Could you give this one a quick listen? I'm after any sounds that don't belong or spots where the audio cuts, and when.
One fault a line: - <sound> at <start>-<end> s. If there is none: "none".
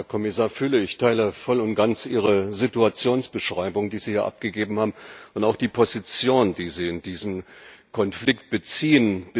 none